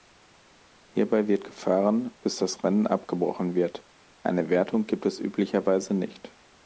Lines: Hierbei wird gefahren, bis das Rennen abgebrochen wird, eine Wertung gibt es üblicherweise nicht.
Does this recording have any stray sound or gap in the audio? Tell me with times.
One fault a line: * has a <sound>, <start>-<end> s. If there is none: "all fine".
all fine